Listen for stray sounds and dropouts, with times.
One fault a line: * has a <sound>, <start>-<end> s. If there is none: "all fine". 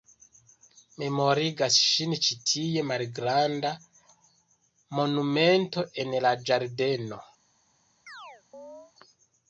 * has a chirp, 8.1-8.9 s